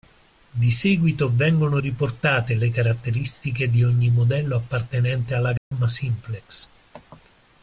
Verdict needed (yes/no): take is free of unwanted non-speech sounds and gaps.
no